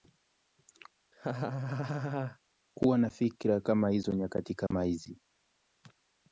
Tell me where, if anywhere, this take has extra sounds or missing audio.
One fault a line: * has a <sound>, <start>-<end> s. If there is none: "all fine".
* has a laugh, 1.1-2.4 s
* has a dropout, 4.7-4.7 s